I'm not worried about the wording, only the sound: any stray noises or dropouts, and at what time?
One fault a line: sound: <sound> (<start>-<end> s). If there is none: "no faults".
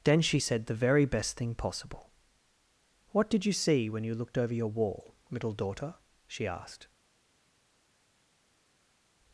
no faults